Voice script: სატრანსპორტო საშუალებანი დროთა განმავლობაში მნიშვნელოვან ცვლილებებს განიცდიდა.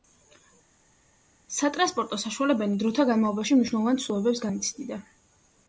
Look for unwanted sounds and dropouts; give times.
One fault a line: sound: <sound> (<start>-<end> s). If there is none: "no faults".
no faults